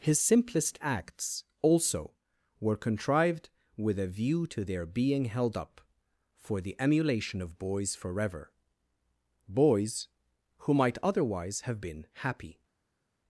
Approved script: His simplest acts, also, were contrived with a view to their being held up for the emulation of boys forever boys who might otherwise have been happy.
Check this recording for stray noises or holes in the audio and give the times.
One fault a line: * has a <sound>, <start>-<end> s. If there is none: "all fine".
all fine